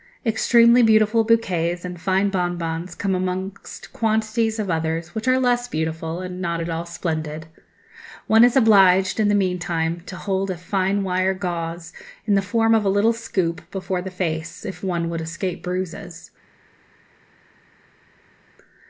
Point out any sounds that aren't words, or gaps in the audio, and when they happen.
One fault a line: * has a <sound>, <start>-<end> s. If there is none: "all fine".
all fine